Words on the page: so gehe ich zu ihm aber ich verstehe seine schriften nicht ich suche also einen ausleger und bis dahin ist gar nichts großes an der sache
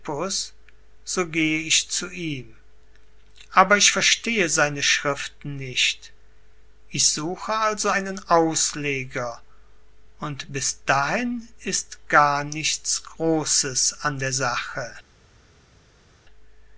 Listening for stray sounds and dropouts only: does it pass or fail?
pass